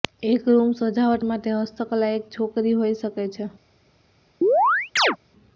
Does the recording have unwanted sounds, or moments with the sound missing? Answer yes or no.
yes